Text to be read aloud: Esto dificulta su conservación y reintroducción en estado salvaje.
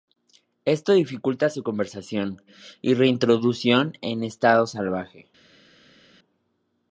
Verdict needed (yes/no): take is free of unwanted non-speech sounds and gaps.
yes